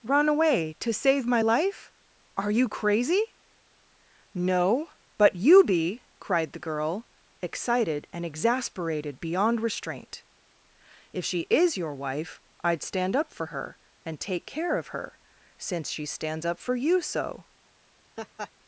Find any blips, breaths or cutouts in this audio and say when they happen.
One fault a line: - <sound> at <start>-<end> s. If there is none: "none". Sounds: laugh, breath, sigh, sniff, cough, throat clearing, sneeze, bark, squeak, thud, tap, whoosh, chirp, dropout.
- laugh at 18.2-18.5 s